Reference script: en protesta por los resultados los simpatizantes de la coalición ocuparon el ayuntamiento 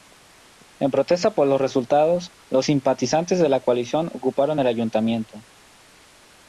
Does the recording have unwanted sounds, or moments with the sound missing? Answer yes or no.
no